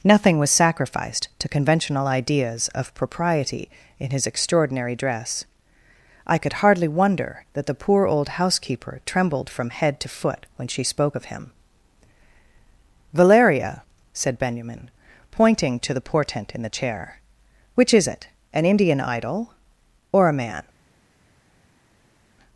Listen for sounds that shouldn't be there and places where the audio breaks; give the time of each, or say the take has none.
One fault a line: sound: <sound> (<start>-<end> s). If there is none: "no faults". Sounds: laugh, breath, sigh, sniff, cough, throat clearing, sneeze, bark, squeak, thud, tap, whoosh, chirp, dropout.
no faults